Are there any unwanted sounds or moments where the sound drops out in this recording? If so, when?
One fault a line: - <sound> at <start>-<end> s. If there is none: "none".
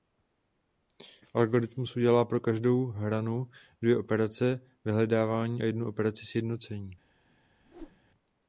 - whoosh at 7.6-8.0 s